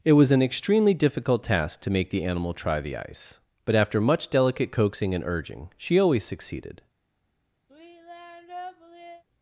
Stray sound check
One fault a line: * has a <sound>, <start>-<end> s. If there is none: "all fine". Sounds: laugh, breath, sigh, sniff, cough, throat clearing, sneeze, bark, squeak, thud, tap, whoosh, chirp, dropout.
* has a sigh, 7.7-9.2 s